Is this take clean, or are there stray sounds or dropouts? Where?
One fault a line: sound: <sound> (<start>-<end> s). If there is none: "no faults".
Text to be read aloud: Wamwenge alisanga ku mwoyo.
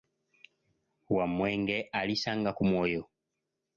no faults